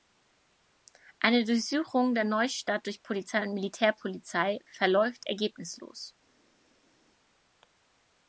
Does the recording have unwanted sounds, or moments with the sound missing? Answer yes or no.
no